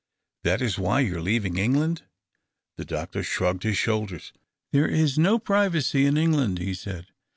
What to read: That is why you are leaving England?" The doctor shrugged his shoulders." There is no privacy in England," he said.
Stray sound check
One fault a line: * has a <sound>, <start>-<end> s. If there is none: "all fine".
all fine